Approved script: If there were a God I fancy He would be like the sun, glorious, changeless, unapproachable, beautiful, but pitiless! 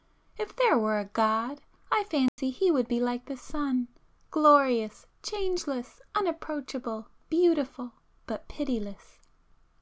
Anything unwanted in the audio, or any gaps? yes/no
yes